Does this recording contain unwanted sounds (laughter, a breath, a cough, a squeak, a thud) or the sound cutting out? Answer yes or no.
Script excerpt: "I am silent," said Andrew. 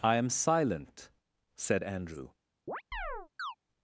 yes